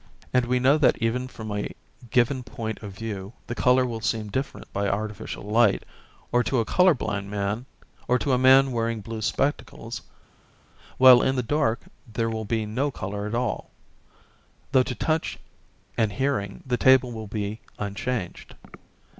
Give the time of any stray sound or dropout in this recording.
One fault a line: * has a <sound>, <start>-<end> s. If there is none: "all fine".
all fine